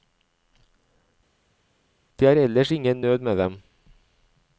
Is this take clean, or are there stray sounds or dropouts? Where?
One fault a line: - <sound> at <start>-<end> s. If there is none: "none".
none